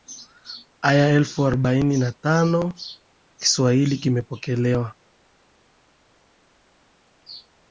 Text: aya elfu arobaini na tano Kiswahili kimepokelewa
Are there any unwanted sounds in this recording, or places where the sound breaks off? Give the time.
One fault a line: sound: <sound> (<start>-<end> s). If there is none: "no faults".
no faults